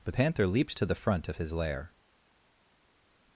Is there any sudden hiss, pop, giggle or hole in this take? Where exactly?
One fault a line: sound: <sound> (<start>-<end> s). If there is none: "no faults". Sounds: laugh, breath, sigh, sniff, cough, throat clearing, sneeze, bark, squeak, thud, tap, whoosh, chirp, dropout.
no faults